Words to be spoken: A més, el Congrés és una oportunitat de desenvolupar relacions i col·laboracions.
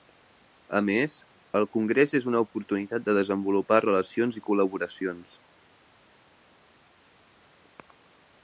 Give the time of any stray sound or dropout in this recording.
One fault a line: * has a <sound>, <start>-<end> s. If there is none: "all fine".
all fine